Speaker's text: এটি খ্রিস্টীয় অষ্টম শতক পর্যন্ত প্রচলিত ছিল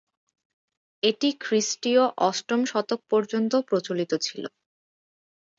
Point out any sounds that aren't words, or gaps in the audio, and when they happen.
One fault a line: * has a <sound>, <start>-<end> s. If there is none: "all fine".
all fine